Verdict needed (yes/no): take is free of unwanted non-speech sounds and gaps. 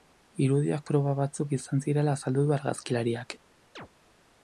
no